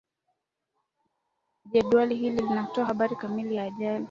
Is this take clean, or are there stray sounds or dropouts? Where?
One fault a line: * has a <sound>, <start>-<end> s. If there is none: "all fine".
all fine